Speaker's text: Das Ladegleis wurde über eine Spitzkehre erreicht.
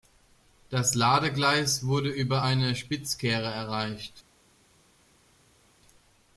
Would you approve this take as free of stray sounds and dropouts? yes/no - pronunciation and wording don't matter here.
yes